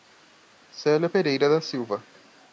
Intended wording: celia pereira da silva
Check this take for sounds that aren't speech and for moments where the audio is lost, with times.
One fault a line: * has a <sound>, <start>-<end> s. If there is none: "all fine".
all fine